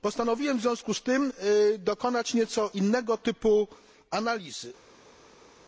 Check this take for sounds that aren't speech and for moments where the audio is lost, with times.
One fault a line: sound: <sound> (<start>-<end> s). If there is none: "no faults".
no faults